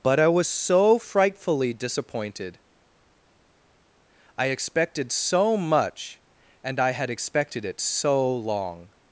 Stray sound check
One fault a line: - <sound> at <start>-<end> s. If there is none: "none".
none